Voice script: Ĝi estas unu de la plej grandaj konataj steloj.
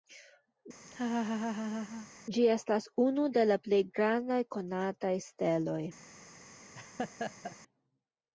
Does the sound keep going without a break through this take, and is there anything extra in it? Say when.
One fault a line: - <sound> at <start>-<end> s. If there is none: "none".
- laugh at 0.9-2.1 s
- laugh at 6.7-7.6 s